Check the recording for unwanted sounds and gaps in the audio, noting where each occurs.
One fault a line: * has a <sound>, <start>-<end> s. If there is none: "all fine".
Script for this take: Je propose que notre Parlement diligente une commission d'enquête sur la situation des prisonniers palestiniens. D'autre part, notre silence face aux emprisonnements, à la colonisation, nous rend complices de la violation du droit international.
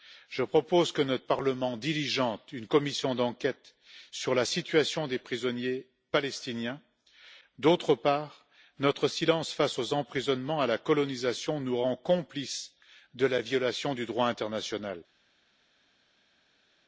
all fine